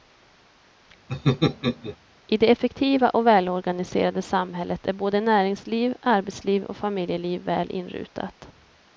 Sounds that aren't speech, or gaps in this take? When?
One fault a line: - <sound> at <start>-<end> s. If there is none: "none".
- laugh at 1.1-2.0 s